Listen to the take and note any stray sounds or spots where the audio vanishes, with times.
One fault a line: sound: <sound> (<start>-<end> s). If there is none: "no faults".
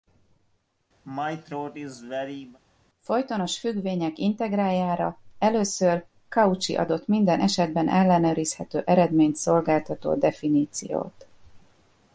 sound: throat clearing (1.0-2.6 s)